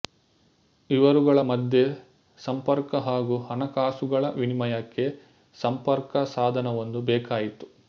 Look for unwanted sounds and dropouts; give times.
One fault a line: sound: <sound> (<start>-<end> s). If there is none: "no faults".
no faults